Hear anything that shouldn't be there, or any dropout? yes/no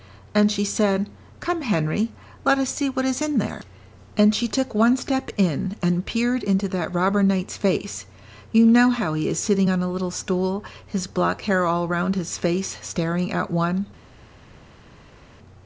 no